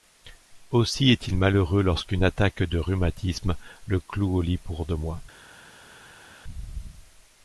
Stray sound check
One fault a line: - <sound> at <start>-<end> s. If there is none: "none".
none